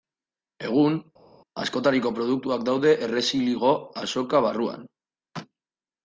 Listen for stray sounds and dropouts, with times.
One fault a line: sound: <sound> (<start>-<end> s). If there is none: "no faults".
no faults